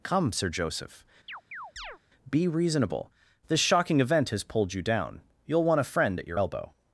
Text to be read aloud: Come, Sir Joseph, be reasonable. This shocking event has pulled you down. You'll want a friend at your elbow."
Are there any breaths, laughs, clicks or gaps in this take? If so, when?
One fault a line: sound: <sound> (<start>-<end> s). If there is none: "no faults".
sound: chirp (1.3-2.0 s)